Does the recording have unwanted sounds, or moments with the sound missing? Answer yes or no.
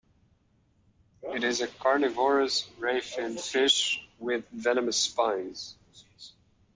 no